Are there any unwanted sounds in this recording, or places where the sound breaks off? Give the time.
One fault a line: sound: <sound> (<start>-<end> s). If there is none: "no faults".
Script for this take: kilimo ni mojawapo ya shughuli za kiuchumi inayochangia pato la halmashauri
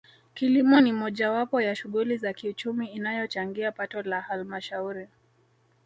no faults